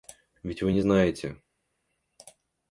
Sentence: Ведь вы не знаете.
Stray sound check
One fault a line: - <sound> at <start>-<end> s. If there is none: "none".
none